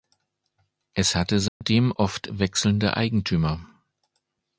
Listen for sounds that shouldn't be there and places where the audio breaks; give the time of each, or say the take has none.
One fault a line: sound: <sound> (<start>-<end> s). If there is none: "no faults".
sound: dropout (1.5-1.6 s)